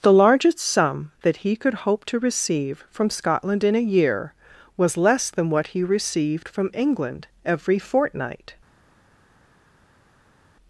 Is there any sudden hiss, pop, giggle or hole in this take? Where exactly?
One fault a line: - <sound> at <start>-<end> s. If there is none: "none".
none